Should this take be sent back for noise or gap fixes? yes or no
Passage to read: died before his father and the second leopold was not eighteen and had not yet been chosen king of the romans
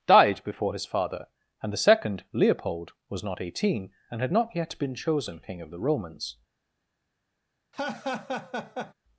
yes